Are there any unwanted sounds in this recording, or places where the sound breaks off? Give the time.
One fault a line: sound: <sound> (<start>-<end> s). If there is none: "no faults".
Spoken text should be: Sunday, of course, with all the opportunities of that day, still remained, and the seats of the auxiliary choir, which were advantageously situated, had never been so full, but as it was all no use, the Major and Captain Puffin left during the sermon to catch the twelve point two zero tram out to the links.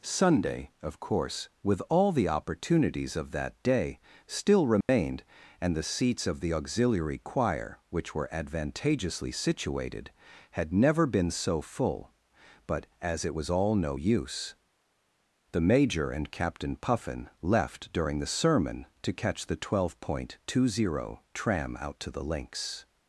sound: dropout (4.8-4.9 s)